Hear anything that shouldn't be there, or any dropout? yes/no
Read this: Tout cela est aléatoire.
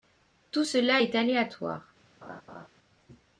yes